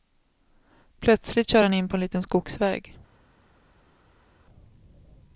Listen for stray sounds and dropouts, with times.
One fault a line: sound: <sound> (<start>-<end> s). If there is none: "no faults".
no faults